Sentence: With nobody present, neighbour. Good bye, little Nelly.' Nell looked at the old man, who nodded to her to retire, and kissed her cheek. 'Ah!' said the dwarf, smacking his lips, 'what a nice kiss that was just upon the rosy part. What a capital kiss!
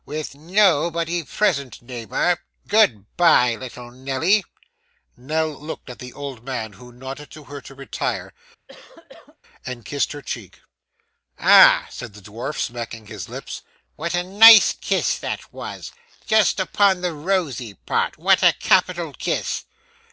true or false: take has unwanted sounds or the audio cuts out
true